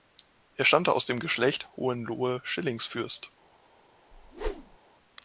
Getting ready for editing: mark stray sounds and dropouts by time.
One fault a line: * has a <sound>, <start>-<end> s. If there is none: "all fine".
* has a whoosh, 4.1-4.8 s